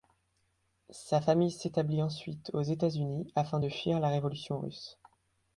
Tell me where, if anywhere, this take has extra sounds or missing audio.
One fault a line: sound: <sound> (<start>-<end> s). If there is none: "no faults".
no faults